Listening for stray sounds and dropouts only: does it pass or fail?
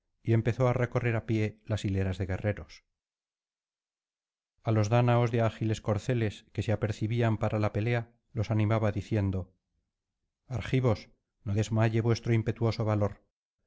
pass